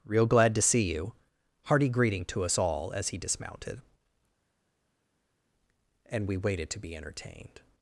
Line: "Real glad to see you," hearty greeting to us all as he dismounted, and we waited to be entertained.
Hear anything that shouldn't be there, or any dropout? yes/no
no